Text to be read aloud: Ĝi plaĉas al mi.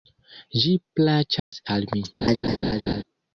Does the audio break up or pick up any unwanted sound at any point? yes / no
yes